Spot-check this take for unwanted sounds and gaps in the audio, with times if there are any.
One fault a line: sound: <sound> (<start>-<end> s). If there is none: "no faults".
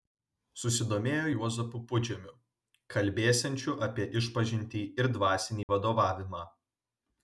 sound: dropout (5.6-5.7 s)